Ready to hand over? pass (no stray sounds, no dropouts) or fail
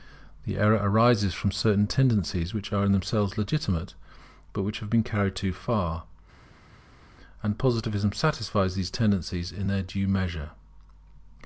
pass